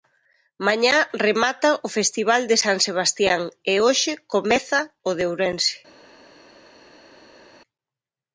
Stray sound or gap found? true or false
false